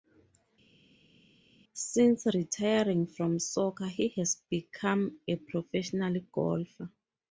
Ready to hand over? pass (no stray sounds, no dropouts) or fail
pass